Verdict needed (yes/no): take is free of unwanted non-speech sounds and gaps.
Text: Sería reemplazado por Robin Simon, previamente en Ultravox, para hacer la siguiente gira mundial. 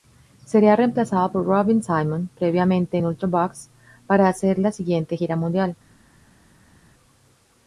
yes